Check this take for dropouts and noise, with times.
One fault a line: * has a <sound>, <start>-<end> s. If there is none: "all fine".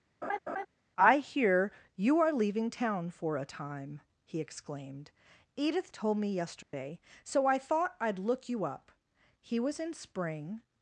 * has a laugh, 0.2-0.7 s
* has a dropout, 6.6-6.7 s